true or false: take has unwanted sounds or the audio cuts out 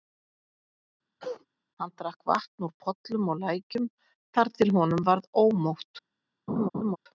true